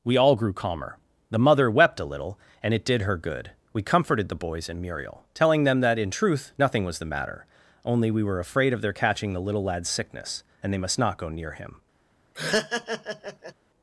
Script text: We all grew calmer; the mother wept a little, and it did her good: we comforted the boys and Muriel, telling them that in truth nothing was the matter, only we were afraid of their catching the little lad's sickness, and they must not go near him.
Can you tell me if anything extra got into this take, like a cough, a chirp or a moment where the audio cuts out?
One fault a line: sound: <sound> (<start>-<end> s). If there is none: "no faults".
sound: laugh (12.3-13.5 s)